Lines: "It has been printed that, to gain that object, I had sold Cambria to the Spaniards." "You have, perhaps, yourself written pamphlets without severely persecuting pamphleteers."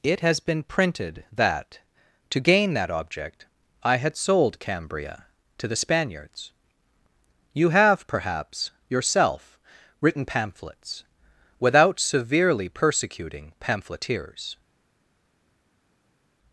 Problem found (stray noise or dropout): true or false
false